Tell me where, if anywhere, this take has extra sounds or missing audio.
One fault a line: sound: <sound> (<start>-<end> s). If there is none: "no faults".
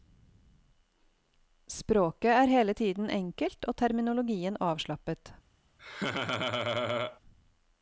sound: laugh (5.8-7.2 s)